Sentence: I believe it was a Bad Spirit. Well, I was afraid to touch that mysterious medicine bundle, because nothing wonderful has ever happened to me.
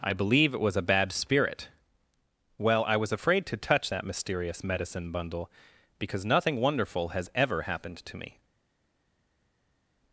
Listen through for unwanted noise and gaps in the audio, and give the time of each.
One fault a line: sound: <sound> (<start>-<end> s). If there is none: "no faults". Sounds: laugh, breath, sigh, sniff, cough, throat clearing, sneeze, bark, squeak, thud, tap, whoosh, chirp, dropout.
no faults